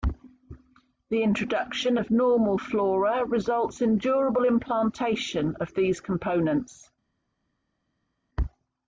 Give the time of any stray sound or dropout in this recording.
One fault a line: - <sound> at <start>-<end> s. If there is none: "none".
none